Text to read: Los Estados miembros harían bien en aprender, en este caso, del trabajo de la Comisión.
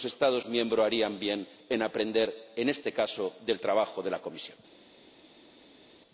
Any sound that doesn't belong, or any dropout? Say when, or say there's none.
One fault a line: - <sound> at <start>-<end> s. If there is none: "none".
none